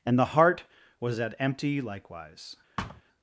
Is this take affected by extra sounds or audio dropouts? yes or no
yes